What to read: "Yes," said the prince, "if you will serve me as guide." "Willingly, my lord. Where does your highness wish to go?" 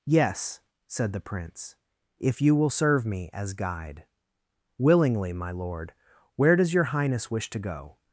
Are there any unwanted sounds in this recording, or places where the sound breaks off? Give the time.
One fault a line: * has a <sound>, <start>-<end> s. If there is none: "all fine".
all fine